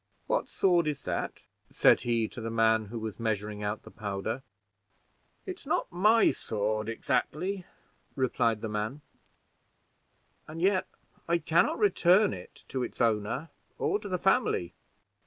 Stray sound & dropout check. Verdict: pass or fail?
pass